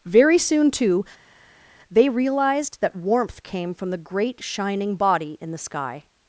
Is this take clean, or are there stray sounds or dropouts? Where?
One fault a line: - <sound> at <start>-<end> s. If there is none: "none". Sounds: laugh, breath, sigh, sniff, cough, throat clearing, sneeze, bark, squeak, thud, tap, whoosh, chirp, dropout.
none